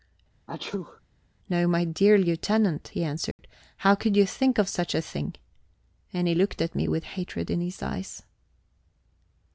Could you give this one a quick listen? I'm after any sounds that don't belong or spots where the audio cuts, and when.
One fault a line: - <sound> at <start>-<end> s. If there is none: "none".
- sneeze at 0.5-1.0 s
- dropout at 3.3-3.4 s